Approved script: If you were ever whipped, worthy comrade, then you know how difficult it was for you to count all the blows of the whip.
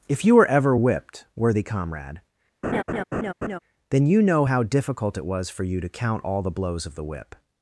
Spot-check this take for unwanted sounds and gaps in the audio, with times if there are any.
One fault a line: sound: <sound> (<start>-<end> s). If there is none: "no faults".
sound: laugh (2.6-3.6 s)